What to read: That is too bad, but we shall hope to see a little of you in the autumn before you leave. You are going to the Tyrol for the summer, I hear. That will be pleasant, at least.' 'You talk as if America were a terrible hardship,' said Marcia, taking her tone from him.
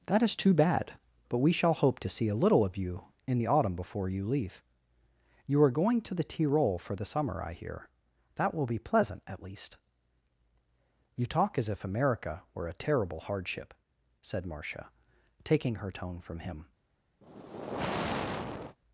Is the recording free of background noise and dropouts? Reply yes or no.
no